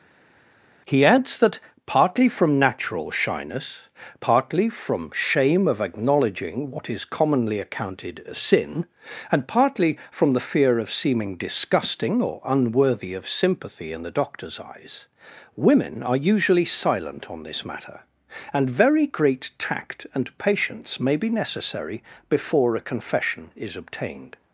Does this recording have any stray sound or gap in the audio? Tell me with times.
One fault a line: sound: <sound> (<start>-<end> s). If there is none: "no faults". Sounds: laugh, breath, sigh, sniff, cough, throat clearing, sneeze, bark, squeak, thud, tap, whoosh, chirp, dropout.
no faults